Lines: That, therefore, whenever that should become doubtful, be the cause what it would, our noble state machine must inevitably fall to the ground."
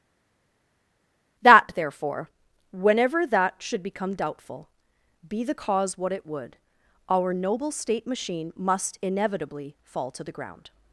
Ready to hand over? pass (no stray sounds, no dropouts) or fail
pass